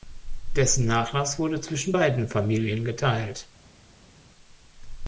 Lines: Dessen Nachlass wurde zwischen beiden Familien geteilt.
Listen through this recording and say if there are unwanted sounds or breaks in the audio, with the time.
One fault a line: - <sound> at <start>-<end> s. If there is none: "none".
none